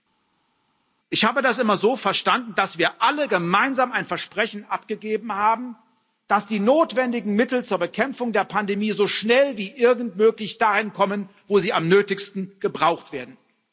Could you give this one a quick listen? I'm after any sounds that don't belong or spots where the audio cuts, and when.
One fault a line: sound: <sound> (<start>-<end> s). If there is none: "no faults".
no faults